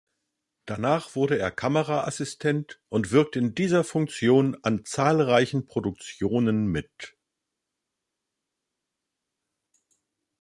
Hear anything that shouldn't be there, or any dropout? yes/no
no